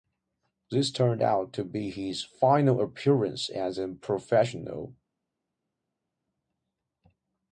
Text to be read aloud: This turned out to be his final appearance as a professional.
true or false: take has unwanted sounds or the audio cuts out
false